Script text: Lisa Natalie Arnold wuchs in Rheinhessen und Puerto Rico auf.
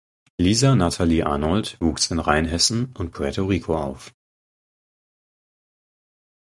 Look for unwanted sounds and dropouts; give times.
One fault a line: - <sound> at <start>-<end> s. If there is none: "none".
none